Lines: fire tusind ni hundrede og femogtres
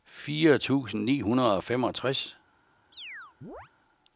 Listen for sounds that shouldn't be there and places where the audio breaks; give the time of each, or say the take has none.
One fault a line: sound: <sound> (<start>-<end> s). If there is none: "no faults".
sound: chirp (2.9-3.7 s)